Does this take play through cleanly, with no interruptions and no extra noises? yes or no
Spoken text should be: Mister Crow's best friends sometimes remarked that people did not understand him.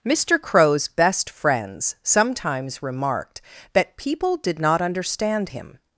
yes